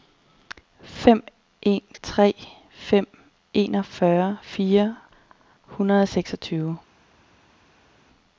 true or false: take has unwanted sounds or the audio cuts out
false